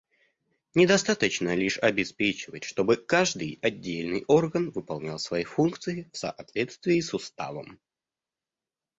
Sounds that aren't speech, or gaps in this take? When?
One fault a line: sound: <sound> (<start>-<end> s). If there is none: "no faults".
no faults